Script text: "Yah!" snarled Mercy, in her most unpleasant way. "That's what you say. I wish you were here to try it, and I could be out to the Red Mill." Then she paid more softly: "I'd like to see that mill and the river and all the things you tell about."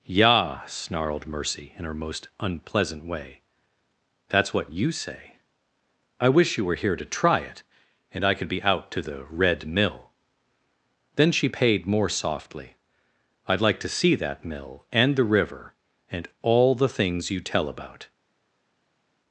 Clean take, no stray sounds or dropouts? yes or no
yes